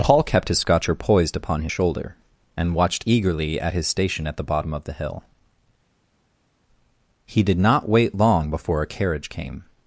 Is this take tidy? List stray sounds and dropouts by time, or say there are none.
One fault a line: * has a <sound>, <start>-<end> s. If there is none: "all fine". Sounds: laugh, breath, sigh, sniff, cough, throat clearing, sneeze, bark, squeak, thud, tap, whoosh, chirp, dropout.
all fine